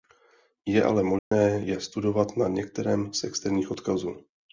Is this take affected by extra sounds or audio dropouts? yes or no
yes